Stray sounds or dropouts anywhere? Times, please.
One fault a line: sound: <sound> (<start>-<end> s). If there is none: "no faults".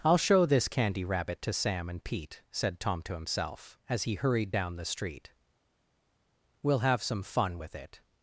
no faults